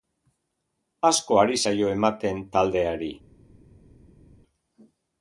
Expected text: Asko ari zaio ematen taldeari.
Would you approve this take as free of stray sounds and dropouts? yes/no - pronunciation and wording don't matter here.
yes